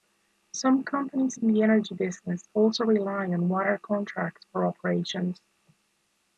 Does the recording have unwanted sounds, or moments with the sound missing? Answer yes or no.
no